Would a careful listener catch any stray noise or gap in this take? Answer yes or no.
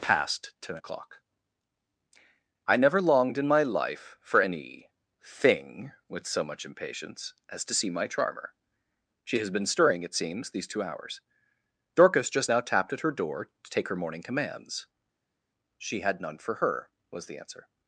no